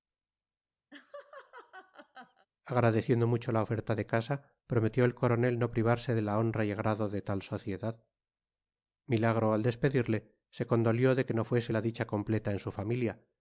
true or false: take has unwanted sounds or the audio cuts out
true